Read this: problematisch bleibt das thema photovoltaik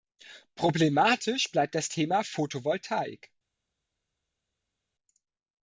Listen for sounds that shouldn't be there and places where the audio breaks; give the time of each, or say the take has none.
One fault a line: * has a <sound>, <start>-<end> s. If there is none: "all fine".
all fine